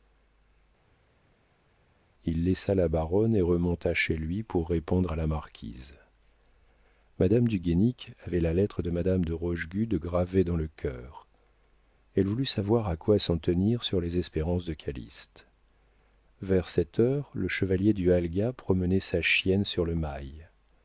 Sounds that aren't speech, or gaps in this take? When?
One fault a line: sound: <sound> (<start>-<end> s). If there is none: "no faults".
no faults